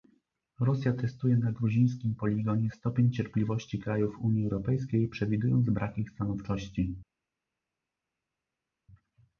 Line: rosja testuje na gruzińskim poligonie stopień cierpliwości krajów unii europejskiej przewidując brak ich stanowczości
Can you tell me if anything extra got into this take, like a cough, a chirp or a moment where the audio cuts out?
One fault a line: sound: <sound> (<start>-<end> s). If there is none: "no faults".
no faults